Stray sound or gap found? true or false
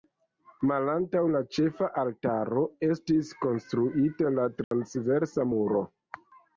true